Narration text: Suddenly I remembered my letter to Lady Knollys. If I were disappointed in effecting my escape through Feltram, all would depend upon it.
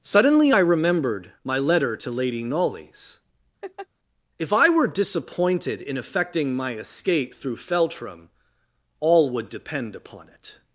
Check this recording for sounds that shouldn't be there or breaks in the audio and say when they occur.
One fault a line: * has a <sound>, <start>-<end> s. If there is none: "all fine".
* has a laugh, 3.6-3.9 s